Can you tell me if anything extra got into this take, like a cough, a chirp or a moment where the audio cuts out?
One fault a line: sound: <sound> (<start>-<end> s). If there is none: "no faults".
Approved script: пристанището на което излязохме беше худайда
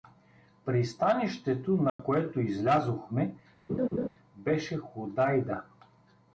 sound: dropout (1.9-2.0 s)
sound: laugh (3.7-4.1 s)